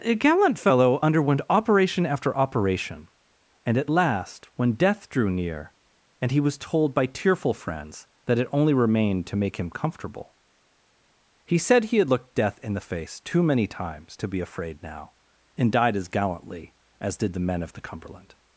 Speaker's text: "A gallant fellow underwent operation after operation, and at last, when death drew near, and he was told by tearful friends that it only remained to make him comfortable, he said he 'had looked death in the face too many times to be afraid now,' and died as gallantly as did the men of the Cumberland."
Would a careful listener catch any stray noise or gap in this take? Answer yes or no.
no